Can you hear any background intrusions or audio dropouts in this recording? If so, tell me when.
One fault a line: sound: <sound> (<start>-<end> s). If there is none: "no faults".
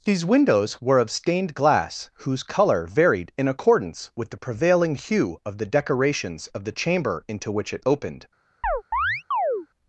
sound: chirp (8.6-9.7 s)